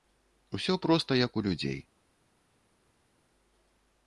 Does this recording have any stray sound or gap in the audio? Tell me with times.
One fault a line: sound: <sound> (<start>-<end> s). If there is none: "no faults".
no faults